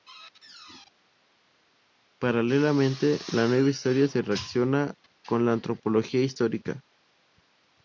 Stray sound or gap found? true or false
false